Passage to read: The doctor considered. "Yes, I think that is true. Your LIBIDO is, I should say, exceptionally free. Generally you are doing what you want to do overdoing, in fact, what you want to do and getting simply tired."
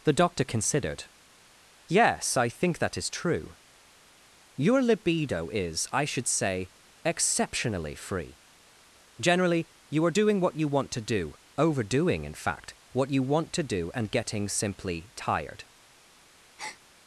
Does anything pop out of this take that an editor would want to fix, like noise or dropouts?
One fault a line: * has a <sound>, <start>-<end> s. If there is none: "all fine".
* has a breath, 16.6-16.8 s